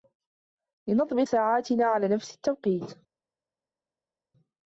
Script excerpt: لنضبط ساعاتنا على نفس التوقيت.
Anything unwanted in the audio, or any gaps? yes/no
no